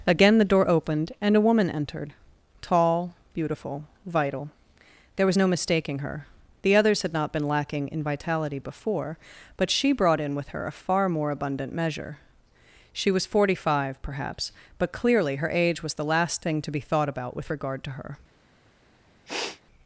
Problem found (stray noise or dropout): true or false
true